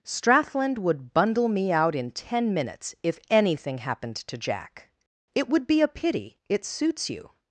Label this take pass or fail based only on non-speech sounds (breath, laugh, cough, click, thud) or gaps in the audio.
pass